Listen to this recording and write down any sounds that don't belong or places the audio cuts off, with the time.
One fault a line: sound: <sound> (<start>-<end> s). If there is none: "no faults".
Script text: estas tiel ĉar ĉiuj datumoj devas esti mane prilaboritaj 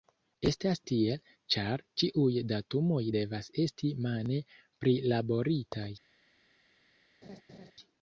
sound: laugh (7.2-7.7 s)